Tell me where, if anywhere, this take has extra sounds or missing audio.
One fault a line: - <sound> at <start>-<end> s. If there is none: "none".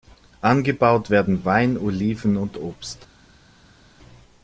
none